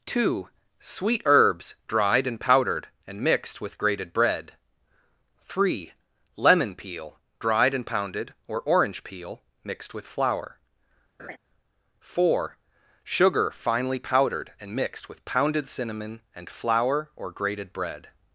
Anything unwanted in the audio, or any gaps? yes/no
yes